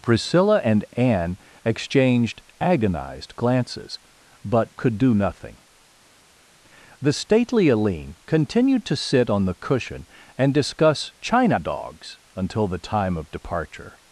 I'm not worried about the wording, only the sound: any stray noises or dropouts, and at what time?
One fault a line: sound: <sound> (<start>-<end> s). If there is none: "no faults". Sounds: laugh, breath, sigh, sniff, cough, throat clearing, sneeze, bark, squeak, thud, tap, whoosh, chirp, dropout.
no faults